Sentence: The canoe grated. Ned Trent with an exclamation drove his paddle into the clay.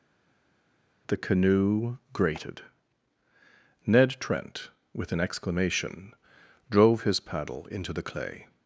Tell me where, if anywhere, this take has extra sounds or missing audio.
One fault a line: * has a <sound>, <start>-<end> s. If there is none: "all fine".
all fine